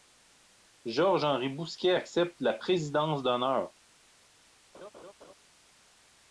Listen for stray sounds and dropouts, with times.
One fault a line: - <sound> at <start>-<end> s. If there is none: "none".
- laugh at 4.7-5.3 s